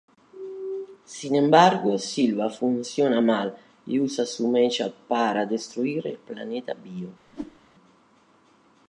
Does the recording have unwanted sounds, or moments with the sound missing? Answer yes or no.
yes